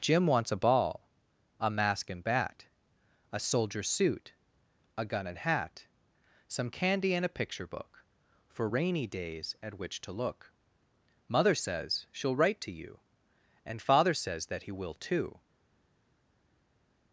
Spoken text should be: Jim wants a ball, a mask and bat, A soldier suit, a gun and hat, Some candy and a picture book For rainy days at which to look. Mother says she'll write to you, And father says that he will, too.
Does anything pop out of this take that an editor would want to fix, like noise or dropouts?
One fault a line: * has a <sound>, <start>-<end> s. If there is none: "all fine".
all fine